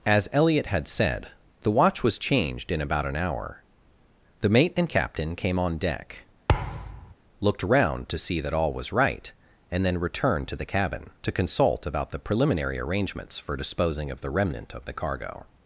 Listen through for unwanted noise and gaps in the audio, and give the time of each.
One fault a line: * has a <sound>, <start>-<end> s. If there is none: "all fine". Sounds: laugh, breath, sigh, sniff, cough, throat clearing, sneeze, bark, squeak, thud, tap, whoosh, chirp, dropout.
* has a thud, 6.5-7.1 s